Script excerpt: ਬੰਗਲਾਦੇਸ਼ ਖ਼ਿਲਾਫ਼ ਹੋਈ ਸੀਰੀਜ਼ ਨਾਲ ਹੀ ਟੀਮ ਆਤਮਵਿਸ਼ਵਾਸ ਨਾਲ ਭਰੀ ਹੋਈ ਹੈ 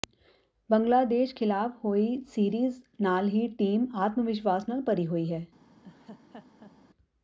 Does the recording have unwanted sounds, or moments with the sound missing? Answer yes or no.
yes